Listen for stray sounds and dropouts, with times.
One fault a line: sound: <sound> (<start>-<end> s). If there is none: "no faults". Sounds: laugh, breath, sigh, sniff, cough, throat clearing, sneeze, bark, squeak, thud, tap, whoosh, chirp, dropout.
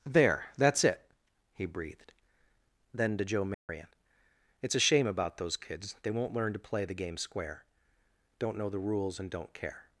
sound: dropout (3.5-3.7 s)